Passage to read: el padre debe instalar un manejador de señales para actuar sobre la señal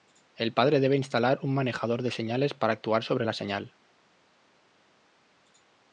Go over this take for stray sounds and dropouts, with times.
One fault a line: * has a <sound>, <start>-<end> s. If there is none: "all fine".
all fine